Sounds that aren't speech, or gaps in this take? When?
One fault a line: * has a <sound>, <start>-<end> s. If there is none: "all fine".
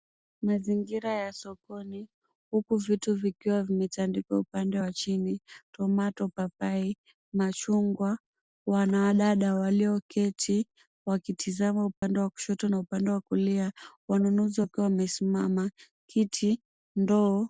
* has a dropout, 12.0-12.0 s